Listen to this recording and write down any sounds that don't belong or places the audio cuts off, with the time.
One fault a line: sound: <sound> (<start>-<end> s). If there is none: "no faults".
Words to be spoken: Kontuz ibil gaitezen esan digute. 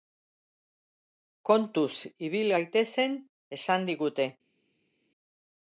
no faults